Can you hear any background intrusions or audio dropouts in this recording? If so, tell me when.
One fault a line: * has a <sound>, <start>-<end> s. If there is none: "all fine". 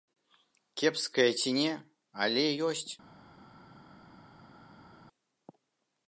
all fine